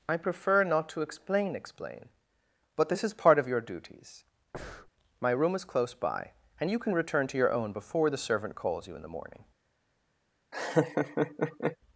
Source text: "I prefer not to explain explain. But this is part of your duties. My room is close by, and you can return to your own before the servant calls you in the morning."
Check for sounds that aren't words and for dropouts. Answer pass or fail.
fail